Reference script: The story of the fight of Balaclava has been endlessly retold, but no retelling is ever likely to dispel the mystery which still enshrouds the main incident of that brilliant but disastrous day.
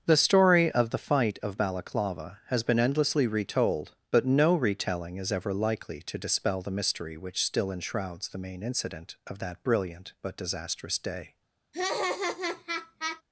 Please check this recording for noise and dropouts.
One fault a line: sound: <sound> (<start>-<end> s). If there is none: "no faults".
sound: laugh (11.7-13.2 s)